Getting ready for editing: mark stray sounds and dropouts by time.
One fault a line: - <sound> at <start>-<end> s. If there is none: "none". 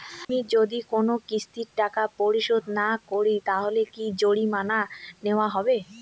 - dropout at 0.2-0.3 s